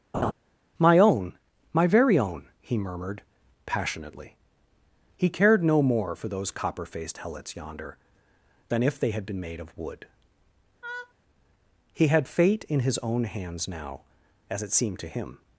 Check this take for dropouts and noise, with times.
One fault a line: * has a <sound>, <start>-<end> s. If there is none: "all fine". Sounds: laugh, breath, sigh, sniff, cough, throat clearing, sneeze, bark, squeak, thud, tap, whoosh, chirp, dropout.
* has a laugh, 0.1-0.3 s
* has a laugh, 10.8-11.1 s